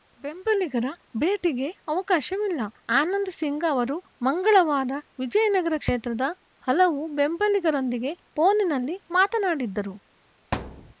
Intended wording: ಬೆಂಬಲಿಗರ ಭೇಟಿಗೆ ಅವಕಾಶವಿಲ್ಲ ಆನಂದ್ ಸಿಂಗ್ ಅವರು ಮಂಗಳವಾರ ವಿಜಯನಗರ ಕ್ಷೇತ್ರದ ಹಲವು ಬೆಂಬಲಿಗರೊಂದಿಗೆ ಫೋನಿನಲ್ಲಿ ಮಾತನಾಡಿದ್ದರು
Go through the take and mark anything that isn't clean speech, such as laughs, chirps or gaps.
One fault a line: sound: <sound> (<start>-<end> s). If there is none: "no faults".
sound: thud (10.5-10.9 s)